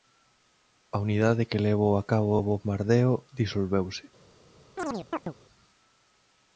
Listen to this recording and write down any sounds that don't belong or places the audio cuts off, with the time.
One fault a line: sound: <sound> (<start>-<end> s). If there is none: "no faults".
sound: chirp (4.8-5.3 s)